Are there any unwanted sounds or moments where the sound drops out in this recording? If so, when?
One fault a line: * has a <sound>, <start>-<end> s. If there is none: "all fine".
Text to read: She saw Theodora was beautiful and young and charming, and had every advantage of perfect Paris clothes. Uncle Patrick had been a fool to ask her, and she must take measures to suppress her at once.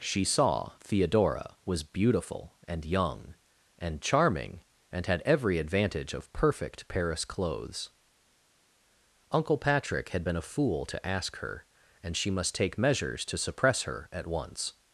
all fine